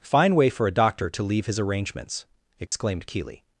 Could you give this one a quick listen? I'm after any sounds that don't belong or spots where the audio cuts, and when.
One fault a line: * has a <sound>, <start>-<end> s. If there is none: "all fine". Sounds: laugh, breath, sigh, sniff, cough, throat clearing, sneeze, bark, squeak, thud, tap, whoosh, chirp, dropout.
* has a dropout, 2.7-2.7 s